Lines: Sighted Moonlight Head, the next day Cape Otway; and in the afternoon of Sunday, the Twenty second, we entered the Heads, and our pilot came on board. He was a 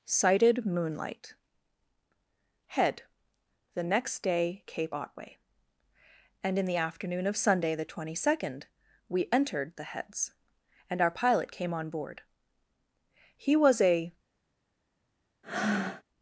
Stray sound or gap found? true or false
true